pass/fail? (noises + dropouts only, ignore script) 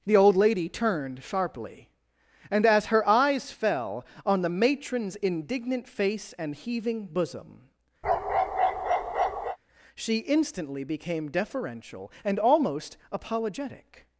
fail